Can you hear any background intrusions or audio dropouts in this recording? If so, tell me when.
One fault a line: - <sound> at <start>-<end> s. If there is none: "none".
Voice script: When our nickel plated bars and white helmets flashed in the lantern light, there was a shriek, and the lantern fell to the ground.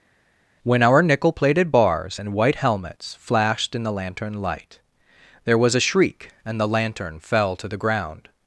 none